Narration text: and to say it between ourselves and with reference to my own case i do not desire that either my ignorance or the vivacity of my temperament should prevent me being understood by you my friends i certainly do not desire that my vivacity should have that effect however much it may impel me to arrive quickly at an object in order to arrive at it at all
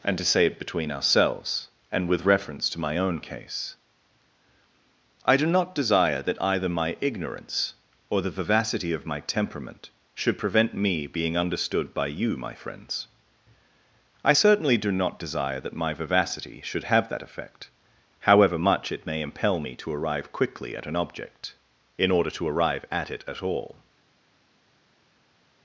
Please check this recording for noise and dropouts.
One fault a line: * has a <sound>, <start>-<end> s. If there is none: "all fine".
all fine